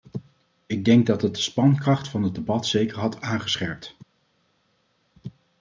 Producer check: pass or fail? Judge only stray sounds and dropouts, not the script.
pass